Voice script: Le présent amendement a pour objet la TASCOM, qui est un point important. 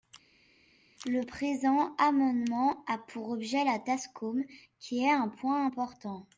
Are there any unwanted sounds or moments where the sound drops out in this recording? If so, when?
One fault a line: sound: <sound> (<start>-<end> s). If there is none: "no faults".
no faults